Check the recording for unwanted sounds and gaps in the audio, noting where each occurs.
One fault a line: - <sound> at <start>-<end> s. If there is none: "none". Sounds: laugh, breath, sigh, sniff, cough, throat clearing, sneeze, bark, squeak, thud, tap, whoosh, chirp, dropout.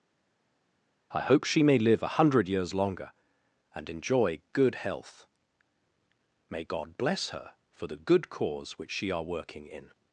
none